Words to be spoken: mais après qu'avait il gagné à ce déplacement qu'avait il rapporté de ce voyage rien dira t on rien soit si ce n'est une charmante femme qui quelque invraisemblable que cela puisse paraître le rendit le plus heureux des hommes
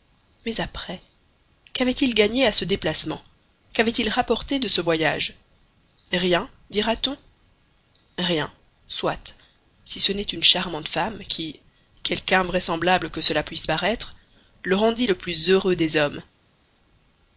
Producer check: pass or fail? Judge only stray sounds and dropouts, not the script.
pass